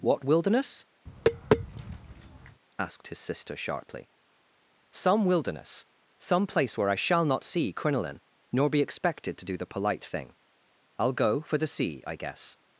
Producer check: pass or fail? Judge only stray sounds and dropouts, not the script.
fail